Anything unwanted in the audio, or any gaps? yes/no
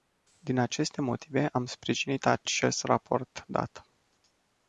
no